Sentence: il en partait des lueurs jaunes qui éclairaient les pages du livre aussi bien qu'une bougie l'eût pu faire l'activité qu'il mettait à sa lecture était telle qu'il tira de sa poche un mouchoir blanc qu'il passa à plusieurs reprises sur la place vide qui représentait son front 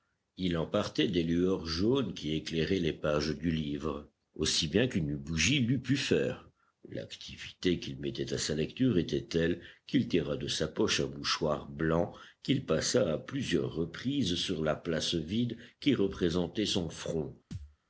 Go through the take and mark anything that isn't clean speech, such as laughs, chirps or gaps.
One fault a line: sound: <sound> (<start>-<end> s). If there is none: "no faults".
sound: thud (17.5-17.8 s)